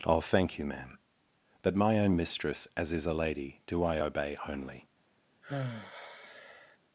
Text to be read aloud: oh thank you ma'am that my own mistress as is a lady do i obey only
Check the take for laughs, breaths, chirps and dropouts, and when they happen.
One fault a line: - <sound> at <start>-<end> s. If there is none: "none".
- sigh at 5.4-6.8 s